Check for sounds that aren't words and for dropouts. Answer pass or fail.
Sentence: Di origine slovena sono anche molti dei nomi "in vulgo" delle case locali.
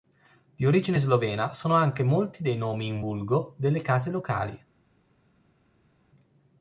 pass